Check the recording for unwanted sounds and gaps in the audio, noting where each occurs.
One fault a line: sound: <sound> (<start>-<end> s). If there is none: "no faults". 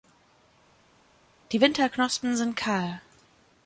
no faults